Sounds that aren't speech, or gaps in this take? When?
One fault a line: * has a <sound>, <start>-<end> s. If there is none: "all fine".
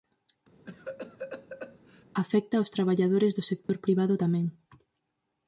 * has a cough, 0.6-2.0 s
* has a dropout, 3.6-3.7 s